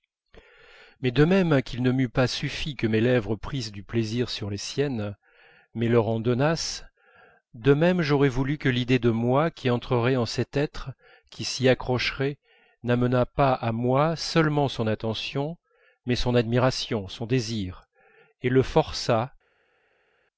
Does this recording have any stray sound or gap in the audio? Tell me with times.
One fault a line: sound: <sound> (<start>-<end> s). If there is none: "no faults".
no faults